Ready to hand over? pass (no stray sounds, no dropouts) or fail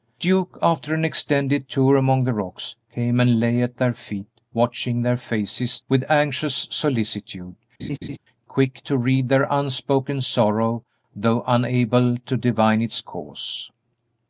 fail